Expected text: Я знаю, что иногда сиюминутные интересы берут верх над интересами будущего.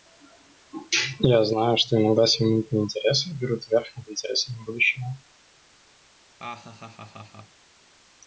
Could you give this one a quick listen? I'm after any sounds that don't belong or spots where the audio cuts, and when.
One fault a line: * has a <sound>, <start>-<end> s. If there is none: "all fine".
* has a laugh, 6.4-7.6 s